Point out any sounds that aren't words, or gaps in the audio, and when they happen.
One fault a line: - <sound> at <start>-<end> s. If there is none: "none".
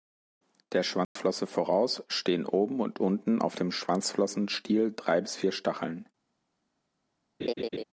- dropout at 1.0-1.2 s
- laugh at 7.4-7.8 s